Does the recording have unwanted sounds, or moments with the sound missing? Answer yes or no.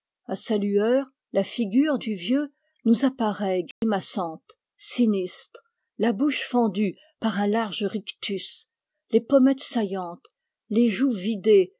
yes